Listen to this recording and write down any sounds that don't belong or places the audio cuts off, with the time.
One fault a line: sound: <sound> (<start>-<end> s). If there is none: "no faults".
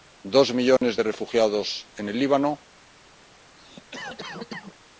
sound: dropout (0.8-0.8 s)
sound: cough (3.6-4.8 s)